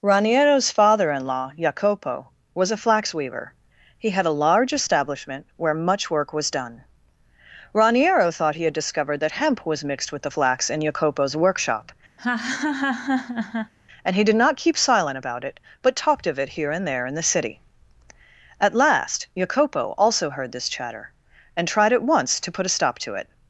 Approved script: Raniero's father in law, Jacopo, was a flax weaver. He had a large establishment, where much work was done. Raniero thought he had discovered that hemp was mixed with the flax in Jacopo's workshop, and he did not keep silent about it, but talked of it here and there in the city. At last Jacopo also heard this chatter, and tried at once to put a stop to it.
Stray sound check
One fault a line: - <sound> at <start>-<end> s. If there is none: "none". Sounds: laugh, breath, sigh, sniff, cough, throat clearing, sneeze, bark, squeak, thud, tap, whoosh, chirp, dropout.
- laugh at 12.2-13.7 s